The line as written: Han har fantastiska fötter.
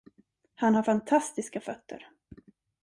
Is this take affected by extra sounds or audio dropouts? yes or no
no